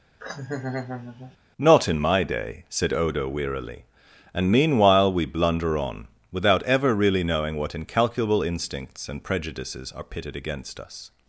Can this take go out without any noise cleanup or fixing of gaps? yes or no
no